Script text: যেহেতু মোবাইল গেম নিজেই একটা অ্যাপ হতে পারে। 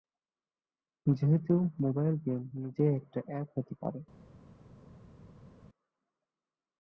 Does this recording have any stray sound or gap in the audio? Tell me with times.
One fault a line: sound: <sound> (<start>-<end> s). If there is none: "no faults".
no faults